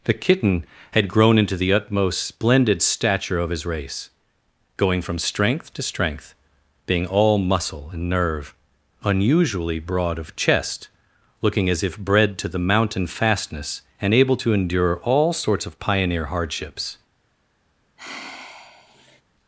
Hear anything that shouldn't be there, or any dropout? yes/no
yes